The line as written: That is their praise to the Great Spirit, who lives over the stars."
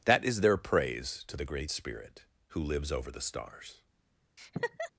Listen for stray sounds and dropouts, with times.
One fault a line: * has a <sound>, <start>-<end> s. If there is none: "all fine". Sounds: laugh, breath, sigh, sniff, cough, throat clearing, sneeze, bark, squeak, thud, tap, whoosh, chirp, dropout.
* has a laugh, 4.4-4.9 s